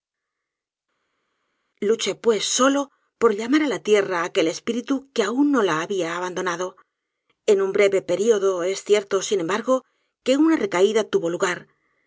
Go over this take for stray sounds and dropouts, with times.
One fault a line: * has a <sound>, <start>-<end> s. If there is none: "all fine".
all fine